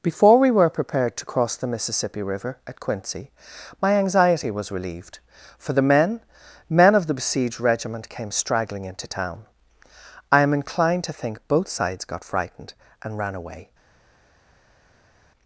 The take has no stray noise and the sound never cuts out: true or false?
true